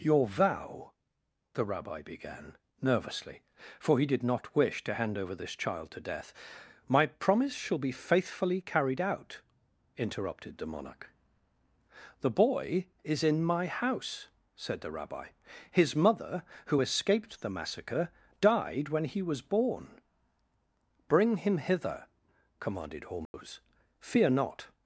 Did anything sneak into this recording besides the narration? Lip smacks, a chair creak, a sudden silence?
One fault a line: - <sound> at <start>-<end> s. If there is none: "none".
- dropout at 23.3-23.3 s